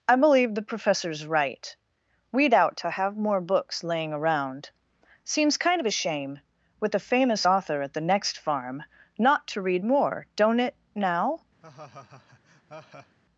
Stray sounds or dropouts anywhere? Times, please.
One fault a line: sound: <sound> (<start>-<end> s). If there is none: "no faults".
sound: laugh (11.6-13.2 s)